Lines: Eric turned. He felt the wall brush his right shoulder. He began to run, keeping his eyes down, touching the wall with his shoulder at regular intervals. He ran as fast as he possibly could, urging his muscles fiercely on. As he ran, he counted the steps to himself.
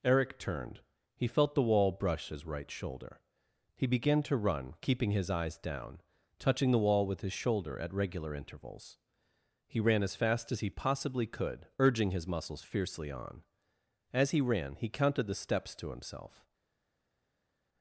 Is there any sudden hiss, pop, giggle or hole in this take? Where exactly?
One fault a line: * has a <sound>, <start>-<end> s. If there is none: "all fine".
all fine